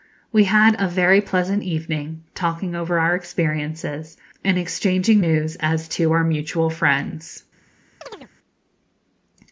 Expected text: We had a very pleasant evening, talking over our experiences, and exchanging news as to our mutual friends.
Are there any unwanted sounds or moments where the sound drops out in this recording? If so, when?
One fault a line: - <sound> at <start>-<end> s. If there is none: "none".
- chirp at 8.0-8.3 s